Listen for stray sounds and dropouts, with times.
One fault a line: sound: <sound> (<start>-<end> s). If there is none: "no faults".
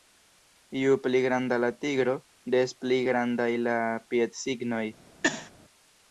sound: sneeze (5.2-5.5 s)